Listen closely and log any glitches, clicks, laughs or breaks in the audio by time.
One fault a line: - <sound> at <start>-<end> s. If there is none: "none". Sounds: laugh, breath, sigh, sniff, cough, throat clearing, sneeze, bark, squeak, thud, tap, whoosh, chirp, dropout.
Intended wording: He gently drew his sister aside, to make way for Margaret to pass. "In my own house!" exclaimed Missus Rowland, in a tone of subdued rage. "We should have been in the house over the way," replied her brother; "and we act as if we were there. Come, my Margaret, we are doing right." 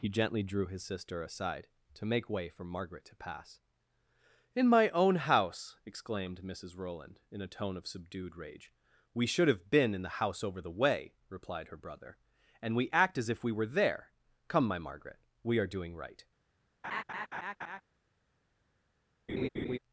- laugh at 16.8-17.8 s
- laugh at 19.3-19.8 s